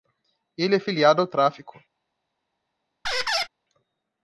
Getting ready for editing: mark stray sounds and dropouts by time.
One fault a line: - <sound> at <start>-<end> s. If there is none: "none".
- squeak at 3.0-3.5 s